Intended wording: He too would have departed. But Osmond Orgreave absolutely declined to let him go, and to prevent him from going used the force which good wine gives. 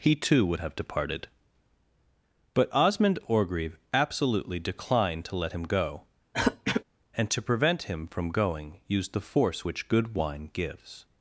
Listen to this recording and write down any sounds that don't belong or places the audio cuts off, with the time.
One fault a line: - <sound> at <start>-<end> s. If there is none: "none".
- throat clearing at 6.3-6.8 s